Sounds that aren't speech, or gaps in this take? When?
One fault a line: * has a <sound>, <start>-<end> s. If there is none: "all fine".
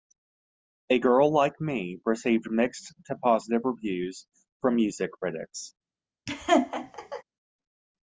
* has a laugh, 6.3-7.2 s